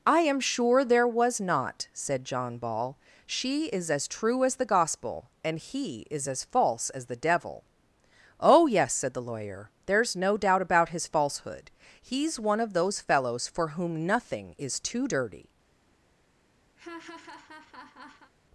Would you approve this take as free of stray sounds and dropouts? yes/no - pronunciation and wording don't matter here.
no